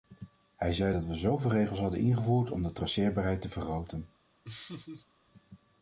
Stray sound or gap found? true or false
true